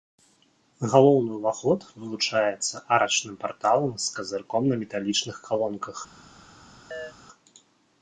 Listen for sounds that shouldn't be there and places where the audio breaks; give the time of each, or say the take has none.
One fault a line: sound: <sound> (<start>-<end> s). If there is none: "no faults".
sound: chirp (6.9-7.1 s)